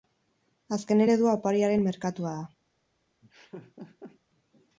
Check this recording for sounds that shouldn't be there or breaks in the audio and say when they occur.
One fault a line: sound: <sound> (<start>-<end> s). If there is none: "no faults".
sound: laugh (3.2-4.2 s)